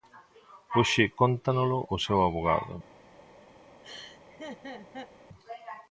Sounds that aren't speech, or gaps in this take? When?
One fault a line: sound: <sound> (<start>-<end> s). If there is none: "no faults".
sound: laugh (3.8-5.1 s)